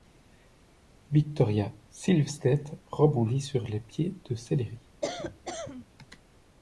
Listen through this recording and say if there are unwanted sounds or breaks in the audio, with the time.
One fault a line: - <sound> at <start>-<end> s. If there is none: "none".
- cough at 5.0-5.8 s